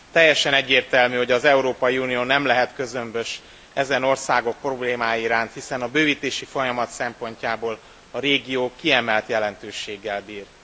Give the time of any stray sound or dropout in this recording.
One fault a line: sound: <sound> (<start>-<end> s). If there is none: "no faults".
no faults